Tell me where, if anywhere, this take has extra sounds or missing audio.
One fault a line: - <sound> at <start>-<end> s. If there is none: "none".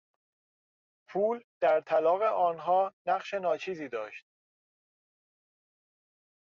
none